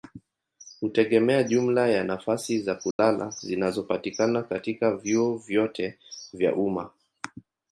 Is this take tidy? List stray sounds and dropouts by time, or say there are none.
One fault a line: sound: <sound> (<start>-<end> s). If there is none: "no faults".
sound: dropout (2.9-3.0 s)